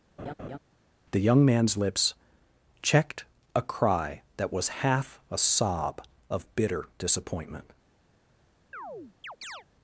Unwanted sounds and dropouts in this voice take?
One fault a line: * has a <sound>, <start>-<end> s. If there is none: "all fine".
* has a laugh, 0.2-0.6 s
* has a chirp, 8.7-9.7 s